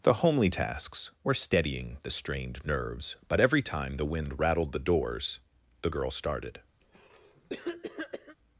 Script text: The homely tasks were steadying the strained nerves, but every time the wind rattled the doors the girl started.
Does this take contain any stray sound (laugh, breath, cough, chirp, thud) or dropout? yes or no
yes